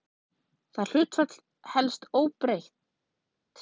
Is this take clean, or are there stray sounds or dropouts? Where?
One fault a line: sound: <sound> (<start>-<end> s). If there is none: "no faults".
no faults